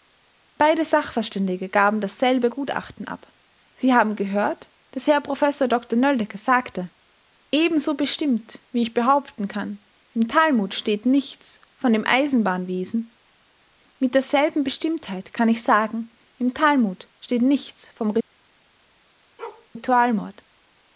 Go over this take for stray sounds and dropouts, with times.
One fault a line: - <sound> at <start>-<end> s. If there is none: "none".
- bark at 19.4-19.7 s